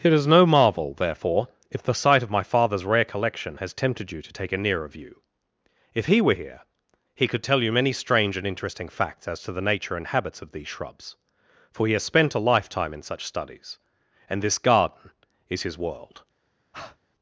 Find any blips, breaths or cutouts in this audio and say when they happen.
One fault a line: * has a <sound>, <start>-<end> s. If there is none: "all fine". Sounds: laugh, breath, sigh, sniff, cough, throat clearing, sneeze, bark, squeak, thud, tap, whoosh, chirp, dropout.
* has a breath, 16.7-17.0 s